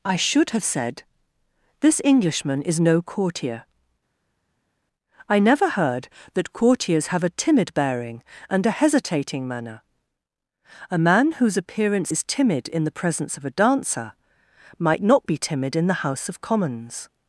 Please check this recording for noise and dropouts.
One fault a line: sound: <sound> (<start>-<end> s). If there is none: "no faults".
no faults